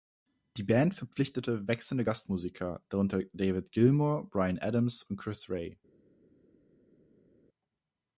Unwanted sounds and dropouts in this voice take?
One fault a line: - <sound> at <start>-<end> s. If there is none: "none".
none